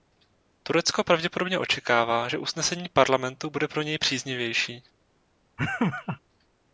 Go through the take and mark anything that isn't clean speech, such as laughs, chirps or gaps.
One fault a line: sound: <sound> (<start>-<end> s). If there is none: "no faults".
sound: laugh (5.6-6.2 s)